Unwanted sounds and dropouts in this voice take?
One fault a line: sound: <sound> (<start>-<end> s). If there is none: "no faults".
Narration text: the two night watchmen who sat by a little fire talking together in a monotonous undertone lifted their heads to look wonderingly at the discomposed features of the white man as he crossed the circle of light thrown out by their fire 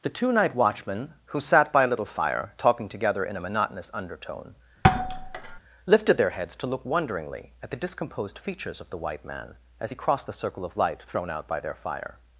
sound: thud (4.8-5.6 s)